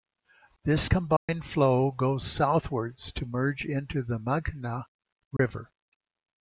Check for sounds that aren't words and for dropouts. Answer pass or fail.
fail